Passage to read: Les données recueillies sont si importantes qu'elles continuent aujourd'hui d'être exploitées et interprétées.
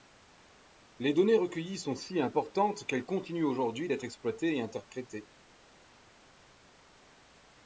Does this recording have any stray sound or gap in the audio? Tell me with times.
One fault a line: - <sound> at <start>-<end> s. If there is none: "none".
none